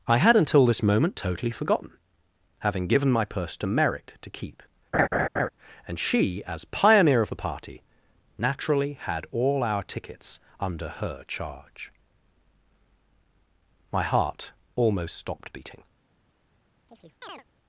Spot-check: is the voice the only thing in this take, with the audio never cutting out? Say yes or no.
no